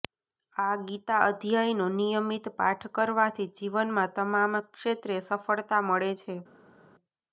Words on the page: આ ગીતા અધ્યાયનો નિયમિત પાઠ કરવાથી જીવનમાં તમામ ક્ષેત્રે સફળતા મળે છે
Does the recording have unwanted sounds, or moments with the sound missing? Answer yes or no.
no